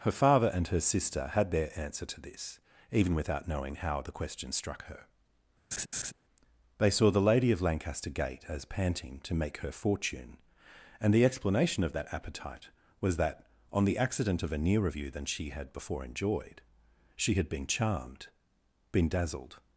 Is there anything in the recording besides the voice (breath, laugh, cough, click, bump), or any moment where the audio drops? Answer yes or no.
yes